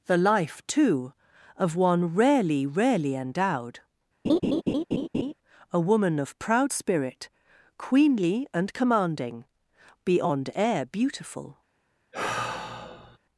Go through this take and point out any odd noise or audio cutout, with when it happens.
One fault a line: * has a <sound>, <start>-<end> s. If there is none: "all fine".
* has a laugh, 4.2-5.3 s
* has a sigh, 12.1-13.2 s